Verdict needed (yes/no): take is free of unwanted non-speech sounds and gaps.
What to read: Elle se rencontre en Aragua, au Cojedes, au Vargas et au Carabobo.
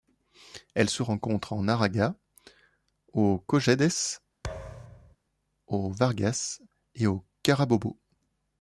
no